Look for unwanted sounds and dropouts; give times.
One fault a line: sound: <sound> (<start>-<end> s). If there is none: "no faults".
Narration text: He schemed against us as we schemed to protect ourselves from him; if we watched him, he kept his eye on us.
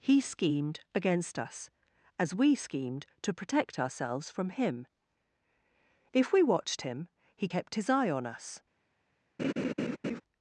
sound: laugh (9.4-10.2 s)